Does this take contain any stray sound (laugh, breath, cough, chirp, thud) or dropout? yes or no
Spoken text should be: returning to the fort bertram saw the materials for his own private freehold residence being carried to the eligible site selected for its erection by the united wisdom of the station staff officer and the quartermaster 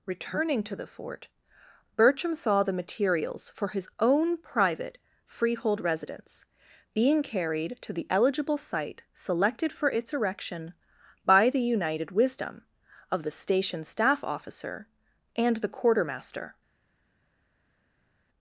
no